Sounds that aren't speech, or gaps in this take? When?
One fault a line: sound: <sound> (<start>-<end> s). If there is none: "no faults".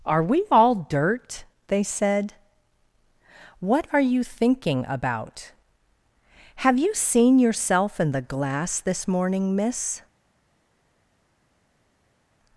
no faults